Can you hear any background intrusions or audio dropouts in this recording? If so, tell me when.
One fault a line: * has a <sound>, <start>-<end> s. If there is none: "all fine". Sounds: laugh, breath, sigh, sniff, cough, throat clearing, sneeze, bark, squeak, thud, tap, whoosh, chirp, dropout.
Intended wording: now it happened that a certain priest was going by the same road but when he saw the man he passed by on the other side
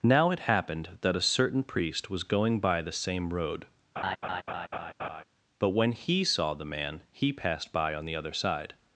* has a laugh, 4.0-5.2 s